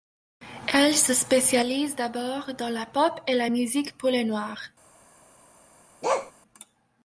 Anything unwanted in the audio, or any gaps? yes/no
yes